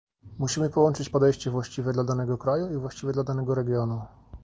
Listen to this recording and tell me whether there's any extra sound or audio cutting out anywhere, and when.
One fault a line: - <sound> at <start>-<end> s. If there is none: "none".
none